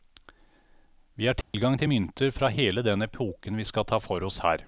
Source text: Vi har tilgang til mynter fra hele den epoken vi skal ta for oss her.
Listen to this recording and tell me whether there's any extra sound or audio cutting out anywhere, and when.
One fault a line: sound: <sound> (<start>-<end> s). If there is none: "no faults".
sound: dropout (1.4-1.5 s)